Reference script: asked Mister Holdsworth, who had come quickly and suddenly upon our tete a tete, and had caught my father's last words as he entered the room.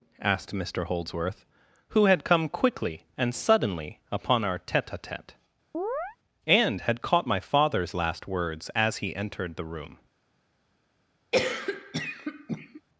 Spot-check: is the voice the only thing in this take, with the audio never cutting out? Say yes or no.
no